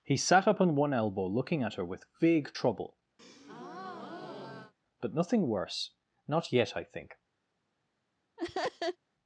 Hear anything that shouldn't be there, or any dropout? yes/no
yes